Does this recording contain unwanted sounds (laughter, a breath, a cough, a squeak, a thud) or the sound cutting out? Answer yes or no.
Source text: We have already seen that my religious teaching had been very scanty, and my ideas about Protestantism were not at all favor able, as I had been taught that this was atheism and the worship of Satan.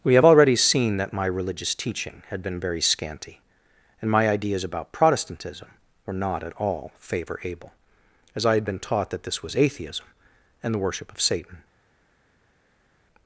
no